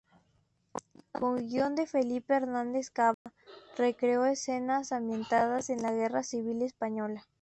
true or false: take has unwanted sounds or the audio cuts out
true